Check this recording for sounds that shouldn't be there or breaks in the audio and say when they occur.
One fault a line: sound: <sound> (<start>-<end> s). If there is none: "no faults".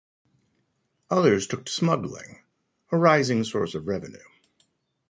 no faults